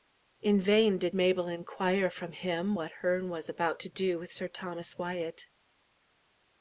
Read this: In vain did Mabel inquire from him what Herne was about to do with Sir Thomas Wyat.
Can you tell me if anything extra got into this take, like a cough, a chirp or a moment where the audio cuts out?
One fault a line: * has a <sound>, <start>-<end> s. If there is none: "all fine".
all fine